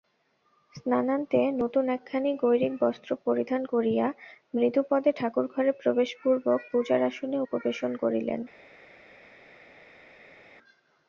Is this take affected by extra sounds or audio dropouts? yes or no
no